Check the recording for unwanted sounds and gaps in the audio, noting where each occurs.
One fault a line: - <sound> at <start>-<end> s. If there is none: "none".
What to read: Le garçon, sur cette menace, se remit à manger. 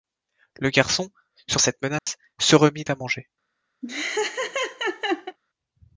- dropout at 2.0-2.1 s
- laugh at 3.8-5.4 s